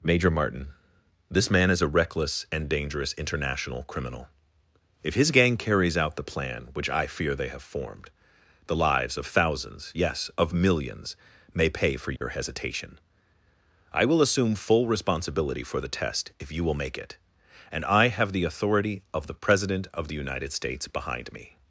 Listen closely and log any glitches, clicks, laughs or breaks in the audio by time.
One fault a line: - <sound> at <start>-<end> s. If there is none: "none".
- dropout at 12.2-12.2 s